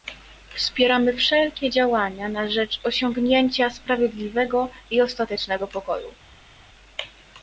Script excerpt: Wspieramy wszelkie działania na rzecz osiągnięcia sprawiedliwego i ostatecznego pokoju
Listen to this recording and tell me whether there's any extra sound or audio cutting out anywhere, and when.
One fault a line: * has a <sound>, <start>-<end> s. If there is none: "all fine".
all fine